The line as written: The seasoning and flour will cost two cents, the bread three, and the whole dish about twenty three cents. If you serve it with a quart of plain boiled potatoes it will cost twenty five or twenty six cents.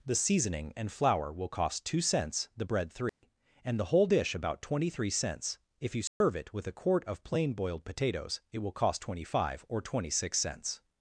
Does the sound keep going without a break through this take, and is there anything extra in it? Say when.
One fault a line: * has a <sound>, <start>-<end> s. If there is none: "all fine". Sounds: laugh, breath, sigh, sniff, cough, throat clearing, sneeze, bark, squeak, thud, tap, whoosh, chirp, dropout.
* has a dropout, 3.1-3.2 s
* has a dropout, 6.1-6.2 s